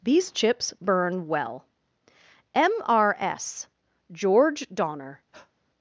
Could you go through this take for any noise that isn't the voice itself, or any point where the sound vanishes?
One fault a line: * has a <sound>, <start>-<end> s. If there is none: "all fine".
* has a breath, 5.3-5.5 s